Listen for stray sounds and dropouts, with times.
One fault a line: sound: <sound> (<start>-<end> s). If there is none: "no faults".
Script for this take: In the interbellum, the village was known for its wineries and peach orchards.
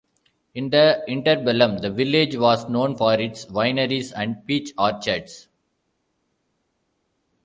no faults